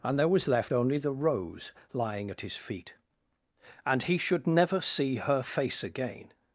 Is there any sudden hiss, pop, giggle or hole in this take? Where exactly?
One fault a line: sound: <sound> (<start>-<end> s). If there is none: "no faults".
no faults